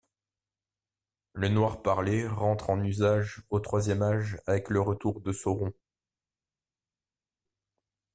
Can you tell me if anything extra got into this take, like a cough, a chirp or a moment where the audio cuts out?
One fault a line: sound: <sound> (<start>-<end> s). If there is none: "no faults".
no faults